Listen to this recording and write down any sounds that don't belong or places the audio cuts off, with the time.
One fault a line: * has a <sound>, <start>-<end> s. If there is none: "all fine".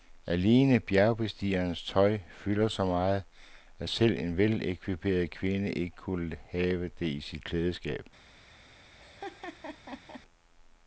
* has a laugh, 9.0-10.2 s